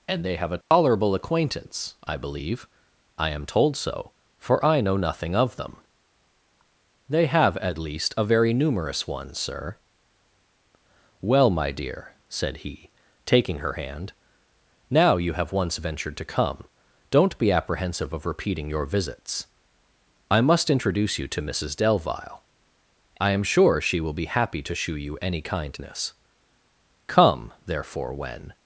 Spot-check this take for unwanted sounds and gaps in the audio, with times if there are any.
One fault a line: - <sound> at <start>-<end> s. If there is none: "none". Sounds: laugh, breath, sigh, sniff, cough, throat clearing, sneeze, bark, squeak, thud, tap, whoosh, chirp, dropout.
- dropout at 0.6-0.7 s